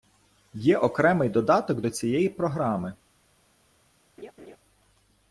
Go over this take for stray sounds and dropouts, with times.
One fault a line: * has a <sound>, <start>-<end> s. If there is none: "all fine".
* has a laugh, 4.2-4.6 s